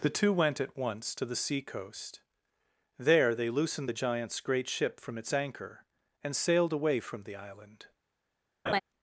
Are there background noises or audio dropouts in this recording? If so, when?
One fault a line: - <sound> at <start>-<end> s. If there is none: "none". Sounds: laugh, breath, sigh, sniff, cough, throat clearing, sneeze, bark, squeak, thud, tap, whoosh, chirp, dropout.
- laugh at 8.7-8.8 s